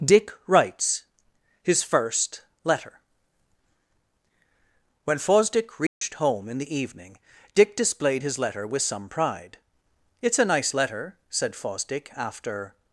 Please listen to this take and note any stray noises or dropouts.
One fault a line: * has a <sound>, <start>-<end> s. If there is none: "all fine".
* has a dropout, 5.9-6.0 s